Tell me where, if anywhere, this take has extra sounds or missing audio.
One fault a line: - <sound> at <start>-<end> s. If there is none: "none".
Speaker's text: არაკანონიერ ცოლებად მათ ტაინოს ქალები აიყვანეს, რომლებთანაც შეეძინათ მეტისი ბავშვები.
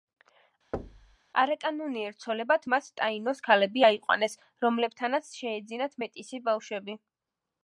- thud at 0.7-1.2 s